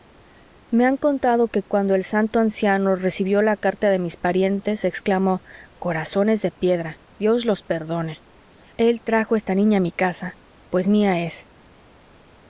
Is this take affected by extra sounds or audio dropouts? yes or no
no